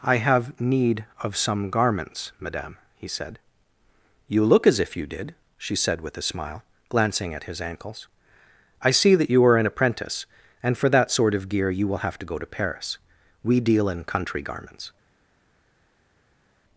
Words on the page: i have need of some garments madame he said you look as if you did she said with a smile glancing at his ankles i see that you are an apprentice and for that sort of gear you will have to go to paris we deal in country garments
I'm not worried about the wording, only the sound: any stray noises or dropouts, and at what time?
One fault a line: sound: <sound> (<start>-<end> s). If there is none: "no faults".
no faults